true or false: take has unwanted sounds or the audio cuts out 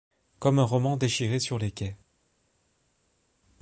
false